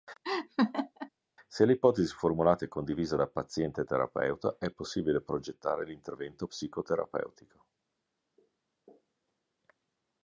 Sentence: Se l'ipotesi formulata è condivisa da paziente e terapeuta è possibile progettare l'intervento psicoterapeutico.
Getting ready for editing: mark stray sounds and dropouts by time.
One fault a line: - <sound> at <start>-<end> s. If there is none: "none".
- laugh at 0.2-1.1 s